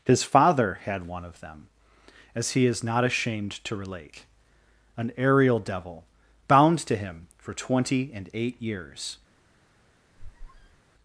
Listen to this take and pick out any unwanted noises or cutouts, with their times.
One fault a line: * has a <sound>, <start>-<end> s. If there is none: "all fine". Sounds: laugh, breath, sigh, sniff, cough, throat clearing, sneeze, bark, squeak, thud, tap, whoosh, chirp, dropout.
* has a squeak, 10.2-10.8 s